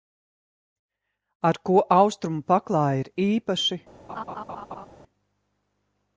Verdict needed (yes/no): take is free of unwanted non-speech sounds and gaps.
no